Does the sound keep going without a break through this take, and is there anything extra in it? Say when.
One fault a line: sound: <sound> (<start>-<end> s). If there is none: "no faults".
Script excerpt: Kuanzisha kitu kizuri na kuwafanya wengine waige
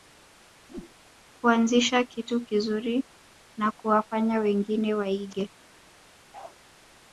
sound: whoosh (0.7-1.0 s)
sound: bark (6.3-6.6 s)